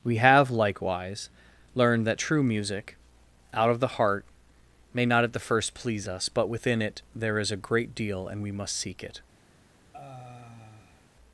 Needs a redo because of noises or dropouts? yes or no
yes